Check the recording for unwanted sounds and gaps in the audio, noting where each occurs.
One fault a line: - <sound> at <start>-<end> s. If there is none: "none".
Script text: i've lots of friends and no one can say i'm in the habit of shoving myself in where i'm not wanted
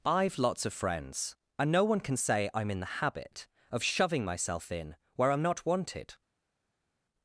none